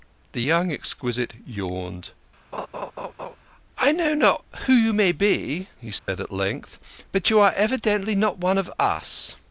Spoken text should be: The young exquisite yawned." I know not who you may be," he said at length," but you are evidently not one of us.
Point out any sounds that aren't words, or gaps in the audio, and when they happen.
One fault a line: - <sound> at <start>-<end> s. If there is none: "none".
- laugh at 2.5-3.4 s
- dropout at 6.0-6.1 s